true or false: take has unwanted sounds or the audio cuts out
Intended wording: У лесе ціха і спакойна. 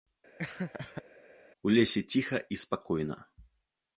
true